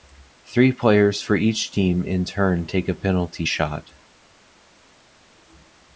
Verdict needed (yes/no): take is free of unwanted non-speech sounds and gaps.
yes